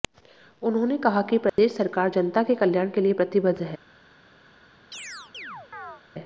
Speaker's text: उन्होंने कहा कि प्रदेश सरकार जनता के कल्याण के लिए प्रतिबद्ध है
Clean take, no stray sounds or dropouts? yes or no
no